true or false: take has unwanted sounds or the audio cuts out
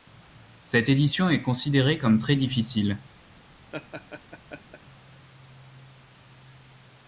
true